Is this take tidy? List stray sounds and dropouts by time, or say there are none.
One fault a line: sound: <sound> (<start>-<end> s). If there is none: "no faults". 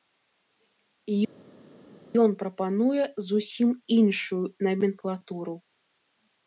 no faults